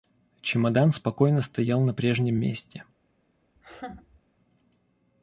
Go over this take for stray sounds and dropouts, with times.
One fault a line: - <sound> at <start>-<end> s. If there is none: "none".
- laugh at 3.6-4.2 s